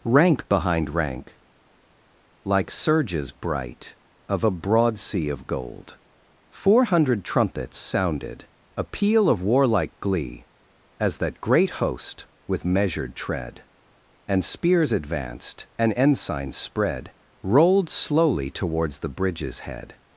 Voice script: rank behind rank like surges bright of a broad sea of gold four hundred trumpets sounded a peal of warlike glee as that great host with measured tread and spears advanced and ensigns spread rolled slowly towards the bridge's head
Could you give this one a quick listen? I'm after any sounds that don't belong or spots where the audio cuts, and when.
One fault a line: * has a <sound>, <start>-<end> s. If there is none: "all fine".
all fine